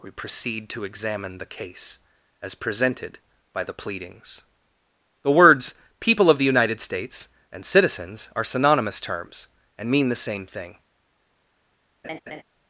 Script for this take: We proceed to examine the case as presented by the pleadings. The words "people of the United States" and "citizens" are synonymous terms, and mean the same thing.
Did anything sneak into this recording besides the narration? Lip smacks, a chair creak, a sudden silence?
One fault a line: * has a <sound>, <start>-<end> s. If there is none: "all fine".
* has a laugh, 12.0-12.4 s